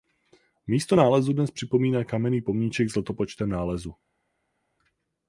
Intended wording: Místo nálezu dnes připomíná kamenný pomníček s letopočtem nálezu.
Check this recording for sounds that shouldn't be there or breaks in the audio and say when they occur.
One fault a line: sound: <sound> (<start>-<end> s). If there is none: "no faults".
no faults